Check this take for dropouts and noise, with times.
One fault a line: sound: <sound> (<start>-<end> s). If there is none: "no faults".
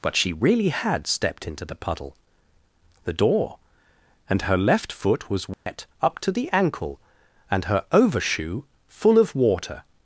sound: dropout (5.5-5.7 s)